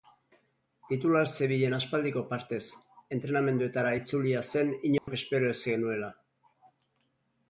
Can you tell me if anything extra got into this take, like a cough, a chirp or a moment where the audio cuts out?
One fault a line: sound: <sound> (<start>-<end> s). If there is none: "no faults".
sound: dropout (5.0-5.1 s)